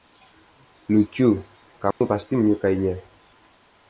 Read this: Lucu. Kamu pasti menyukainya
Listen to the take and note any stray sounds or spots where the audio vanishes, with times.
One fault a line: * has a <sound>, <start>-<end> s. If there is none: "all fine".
* has a dropout, 1.9-2.0 s